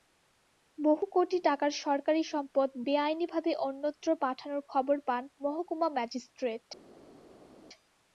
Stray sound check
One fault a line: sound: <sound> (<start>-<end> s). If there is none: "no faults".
no faults